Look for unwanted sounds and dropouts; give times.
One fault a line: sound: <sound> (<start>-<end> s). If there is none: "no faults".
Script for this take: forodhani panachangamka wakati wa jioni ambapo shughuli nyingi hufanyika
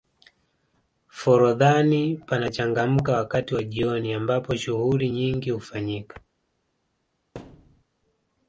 sound: thud (7.3-7.8 s)